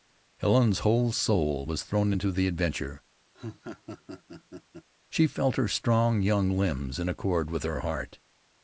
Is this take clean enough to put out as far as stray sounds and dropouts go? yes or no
no